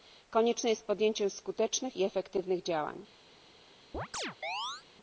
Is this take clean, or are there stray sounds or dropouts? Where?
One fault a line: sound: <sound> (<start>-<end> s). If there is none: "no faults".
sound: chirp (3.9-4.8 s)